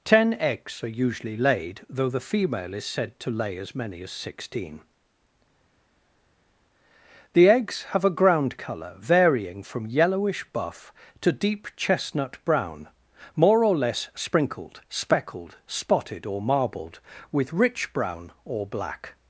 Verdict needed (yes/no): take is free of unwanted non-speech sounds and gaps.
yes